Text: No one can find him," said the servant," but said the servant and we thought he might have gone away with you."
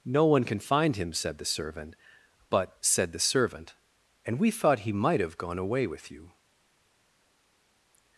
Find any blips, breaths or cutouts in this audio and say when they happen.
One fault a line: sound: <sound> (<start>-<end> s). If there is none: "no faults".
no faults